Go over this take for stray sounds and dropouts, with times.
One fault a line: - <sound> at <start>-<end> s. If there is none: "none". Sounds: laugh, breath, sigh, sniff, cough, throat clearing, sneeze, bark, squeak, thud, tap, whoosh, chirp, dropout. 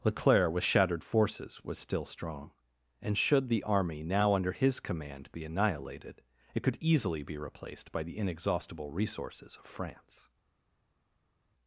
none